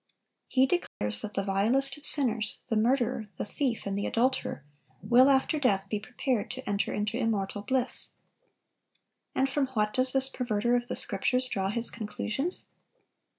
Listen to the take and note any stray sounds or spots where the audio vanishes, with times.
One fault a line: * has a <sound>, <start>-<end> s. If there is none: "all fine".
* has a dropout, 0.9-1.0 s